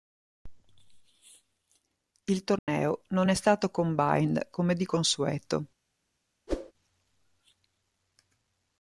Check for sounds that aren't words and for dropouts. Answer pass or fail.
fail